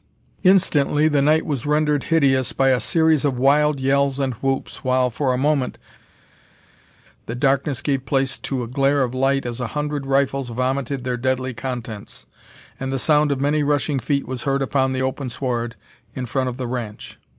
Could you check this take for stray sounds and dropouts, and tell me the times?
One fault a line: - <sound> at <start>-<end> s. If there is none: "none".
none